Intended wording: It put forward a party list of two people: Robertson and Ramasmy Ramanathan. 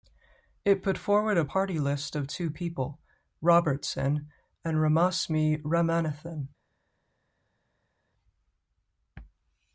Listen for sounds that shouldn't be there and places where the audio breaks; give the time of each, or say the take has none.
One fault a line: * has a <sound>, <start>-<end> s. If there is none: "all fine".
all fine